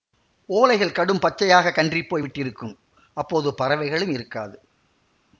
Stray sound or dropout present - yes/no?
no